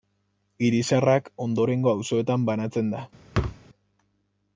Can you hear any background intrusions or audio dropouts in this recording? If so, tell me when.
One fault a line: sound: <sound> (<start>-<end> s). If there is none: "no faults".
sound: thud (3.3-3.6 s)